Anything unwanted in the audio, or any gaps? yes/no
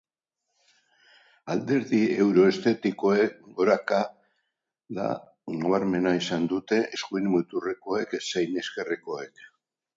no